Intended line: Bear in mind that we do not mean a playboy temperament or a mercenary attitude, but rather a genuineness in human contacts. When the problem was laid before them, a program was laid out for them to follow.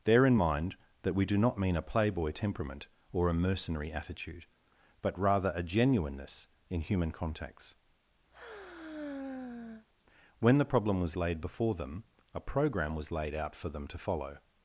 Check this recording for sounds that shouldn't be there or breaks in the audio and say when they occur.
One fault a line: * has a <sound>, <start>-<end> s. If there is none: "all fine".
* has a sigh, 8.3-9.9 s